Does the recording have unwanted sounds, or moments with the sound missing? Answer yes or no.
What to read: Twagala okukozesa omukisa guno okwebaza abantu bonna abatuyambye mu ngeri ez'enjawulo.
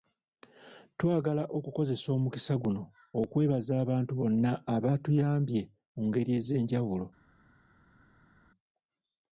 no